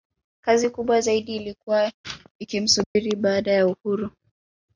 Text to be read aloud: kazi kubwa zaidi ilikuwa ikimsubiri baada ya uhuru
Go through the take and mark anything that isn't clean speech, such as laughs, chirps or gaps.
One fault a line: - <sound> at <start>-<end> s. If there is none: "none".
- dropout at 2.8-3.0 s